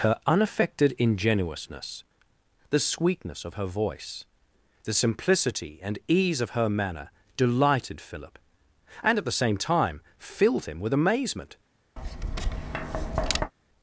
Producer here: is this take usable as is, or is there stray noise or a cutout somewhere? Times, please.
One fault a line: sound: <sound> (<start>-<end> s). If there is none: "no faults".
sound: tap (12.0-13.5 s)